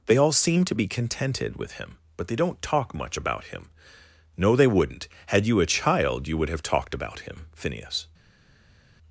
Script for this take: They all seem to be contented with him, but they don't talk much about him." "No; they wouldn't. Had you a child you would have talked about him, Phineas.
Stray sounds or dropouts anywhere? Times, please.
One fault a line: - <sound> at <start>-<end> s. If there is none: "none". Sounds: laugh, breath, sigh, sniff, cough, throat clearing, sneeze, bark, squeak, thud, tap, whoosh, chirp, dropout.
none